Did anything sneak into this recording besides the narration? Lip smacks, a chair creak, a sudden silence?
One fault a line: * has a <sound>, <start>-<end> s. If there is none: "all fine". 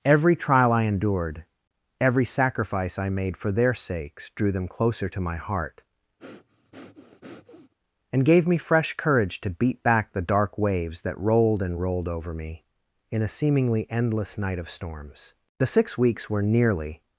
* has a breath, 6.2-7.7 s